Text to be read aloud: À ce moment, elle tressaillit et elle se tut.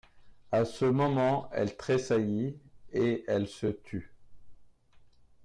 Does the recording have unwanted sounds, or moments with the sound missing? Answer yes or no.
no